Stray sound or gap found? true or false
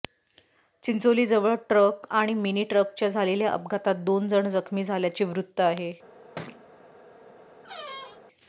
true